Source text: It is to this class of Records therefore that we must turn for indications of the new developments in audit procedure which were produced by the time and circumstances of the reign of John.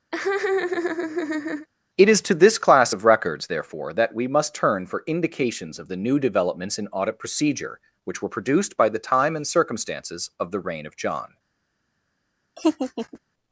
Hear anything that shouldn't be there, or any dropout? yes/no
yes